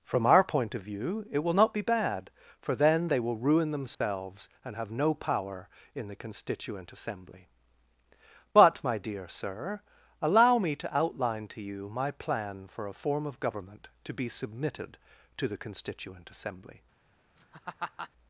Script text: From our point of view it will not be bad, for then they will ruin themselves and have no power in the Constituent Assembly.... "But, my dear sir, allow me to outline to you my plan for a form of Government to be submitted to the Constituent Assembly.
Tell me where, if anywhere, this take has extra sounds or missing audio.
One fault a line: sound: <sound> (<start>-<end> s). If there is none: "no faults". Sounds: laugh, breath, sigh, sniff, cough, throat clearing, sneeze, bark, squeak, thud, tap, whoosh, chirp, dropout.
sound: dropout (3.9-4.0 s)
sound: laugh (17.4-18.1 s)